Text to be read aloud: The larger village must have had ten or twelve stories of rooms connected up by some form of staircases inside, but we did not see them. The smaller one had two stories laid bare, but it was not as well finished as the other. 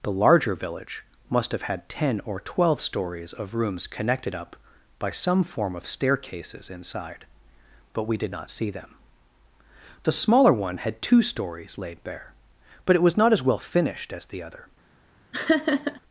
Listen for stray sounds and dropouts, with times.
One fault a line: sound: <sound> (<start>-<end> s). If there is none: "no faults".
sound: laugh (15.3-16.0 s)